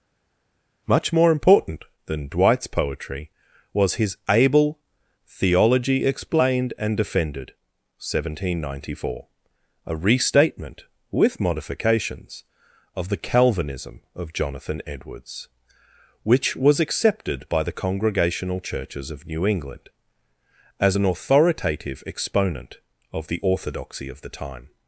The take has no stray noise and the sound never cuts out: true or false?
true